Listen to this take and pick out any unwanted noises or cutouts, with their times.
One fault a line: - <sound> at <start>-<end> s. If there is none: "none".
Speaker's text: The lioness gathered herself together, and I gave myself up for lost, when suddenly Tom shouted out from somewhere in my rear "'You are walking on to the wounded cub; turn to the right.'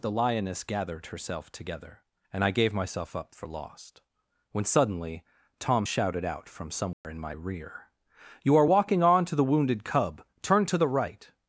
- dropout at 6.9-7.0 s